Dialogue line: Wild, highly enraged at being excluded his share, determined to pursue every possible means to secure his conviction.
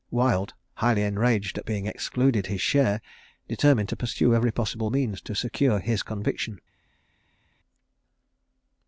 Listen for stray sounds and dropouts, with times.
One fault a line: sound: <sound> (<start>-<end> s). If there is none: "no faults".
no faults